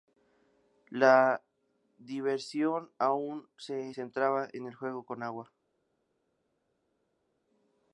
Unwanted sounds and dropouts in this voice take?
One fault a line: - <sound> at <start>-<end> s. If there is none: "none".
none